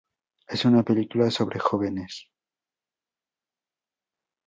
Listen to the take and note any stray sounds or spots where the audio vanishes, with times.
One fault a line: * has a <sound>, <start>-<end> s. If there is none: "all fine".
all fine